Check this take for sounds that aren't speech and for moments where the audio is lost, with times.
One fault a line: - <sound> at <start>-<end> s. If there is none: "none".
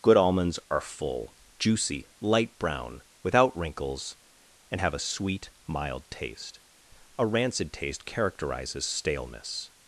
none